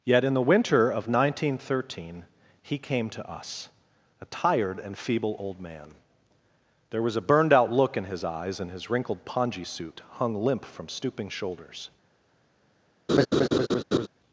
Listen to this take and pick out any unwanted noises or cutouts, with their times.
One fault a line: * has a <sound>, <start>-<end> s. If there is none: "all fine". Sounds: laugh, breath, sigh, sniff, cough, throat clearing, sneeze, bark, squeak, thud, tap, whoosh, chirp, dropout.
* has a laugh, 13.1-14.1 s